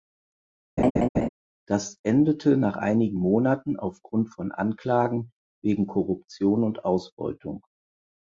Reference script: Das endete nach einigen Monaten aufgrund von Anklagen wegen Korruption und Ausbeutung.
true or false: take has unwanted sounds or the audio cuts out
true